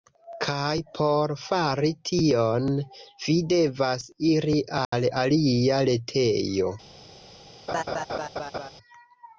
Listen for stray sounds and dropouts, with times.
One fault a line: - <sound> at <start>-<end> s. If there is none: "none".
- dropout at 4.8-4.9 s
- laugh at 7.7-8.7 s